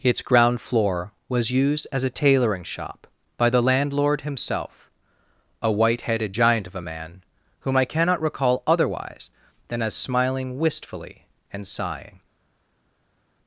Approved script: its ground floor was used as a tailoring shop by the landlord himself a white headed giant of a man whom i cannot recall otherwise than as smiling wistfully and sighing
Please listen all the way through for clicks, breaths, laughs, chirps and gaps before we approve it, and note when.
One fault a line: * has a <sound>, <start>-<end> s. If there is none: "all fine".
all fine